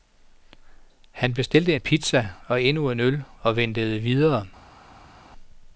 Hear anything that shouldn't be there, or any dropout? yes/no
no